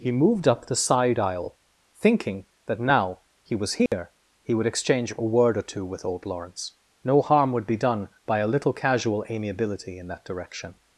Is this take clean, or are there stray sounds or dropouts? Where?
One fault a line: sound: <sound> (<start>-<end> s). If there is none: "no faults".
sound: dropout (3.9-3.9 s)